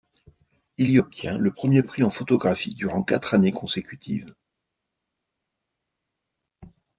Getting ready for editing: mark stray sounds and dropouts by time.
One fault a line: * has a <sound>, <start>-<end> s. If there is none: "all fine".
all fine